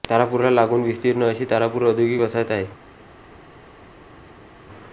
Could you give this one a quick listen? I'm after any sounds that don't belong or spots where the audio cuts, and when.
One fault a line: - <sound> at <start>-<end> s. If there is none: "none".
none